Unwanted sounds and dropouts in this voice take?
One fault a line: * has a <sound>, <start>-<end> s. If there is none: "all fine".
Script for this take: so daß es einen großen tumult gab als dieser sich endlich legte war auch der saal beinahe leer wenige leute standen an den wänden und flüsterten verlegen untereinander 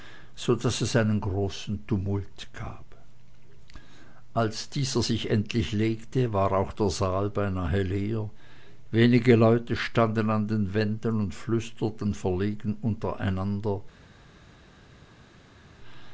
all fine